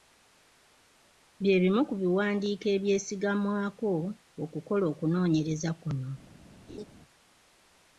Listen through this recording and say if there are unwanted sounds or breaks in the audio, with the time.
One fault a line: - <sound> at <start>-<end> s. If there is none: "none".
- laugh at 6.7-6.8 s